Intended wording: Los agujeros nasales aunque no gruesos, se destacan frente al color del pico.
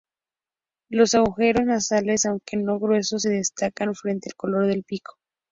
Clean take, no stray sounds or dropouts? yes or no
yes